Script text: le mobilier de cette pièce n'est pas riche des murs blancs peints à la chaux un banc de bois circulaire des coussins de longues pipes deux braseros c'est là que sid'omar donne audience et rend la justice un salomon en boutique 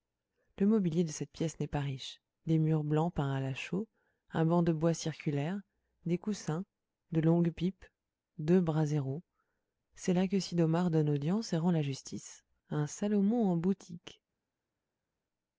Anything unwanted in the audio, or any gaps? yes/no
no